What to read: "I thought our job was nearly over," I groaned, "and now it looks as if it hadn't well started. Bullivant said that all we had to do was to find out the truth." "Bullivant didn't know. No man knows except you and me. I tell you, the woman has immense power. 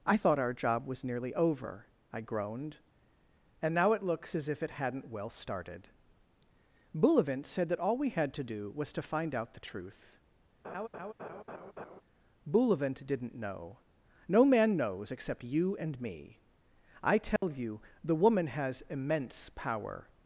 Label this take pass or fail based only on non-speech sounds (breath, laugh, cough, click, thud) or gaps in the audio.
fail